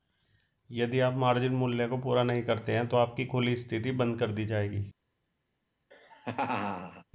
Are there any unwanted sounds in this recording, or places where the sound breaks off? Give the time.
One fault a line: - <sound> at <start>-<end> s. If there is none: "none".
- laugh at 5.9-7.0 s